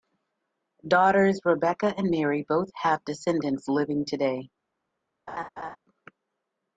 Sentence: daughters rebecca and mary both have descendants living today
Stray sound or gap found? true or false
true